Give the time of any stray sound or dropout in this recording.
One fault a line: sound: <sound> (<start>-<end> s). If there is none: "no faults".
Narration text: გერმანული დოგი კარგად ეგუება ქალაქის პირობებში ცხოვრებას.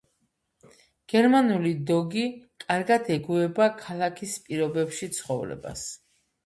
no faults